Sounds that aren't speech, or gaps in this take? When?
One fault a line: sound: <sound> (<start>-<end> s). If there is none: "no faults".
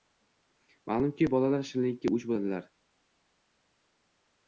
no faults